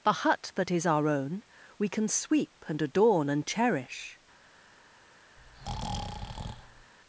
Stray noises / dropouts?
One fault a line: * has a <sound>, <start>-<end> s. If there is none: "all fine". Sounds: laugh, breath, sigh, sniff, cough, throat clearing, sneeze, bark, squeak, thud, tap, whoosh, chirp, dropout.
* has a breath, 5.4-6.9 s